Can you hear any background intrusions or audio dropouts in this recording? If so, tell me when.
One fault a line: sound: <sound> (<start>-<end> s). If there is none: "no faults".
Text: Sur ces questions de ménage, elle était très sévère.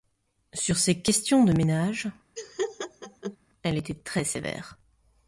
sound: laugh (2.4-3.4 s)